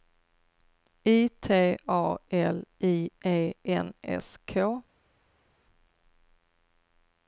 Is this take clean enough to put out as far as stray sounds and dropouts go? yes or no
yes